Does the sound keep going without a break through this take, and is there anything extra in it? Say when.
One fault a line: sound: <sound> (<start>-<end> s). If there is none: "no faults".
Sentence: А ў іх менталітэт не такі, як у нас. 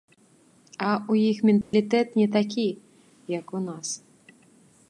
sound: dropout (1.6-1.7 s)